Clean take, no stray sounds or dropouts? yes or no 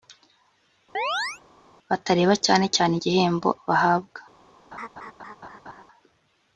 no